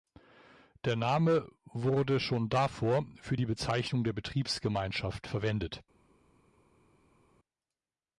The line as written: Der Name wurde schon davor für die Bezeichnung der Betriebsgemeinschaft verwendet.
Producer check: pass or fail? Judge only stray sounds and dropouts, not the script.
pass